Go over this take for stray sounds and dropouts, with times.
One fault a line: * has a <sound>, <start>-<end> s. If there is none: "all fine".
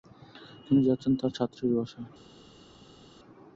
all fine